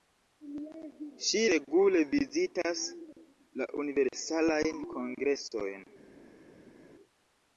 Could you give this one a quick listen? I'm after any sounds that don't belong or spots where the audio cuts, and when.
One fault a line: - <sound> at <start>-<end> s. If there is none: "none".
none